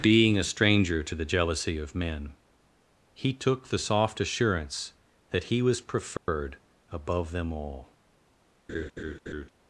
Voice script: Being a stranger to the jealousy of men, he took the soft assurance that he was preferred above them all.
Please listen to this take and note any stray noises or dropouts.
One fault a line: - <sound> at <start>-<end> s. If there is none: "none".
- dropout at 6.2-6.3 s
- laugh at 8.7-9.5 s